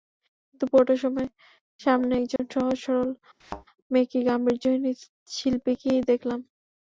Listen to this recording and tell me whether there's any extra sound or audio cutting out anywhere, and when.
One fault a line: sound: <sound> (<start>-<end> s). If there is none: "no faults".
sound: dropout (2.4-2.4 s)
sound: thud (3.4-3.7 s)